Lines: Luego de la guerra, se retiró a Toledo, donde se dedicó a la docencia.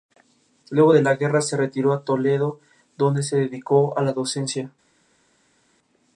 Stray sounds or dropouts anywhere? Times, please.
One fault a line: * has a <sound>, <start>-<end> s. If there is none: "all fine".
all fine